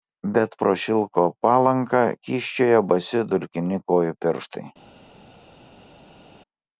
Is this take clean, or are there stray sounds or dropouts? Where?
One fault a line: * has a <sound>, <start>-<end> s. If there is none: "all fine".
all fine